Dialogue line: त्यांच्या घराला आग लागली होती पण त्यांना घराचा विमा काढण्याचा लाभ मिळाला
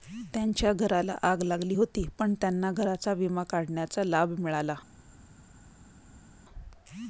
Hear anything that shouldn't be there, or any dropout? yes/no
no